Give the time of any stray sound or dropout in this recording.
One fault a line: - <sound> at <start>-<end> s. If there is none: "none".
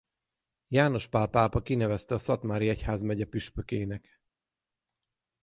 none